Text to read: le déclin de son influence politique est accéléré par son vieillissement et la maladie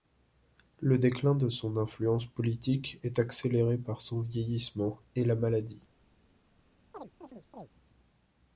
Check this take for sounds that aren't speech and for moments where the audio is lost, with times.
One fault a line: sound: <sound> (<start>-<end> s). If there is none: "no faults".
sound: chirp (6.9-7.7 s)